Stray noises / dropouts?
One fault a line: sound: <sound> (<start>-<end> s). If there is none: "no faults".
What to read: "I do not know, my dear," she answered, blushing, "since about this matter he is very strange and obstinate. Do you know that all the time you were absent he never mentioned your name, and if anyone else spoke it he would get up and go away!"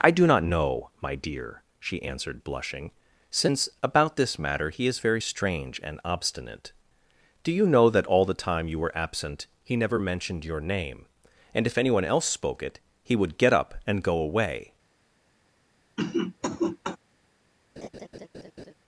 sound: cough (16.0-17.0 s)
sound: laugh (17.8-18.7 s)